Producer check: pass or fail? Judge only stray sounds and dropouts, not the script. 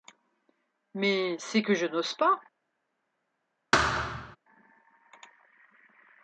fail